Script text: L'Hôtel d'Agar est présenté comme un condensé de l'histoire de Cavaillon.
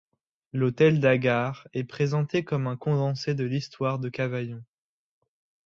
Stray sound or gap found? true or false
false